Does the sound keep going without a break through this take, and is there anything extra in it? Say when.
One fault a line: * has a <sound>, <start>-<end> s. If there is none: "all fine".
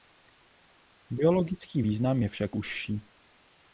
all fine